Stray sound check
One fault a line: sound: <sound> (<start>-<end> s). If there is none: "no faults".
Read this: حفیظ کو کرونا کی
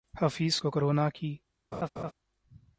sound: laugh (1.7-2.1 s)